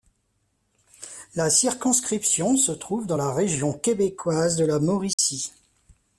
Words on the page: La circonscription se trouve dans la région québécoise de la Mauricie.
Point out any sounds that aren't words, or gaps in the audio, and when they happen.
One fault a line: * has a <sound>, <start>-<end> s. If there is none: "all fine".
* has a dropout, 5.1-5.2 s